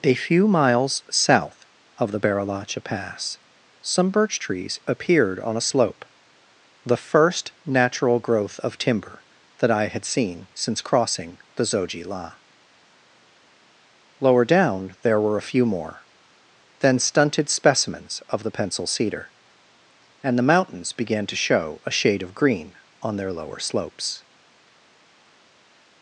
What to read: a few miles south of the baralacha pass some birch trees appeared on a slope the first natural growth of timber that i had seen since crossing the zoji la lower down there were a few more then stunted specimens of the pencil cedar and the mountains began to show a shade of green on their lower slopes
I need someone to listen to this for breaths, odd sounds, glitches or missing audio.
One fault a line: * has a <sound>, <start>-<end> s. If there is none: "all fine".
all fine